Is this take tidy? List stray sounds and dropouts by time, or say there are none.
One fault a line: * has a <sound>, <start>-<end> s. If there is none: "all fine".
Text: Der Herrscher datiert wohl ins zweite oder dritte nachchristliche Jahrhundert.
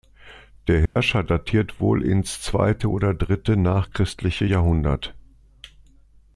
* has a dropout, 0.9-1.0 s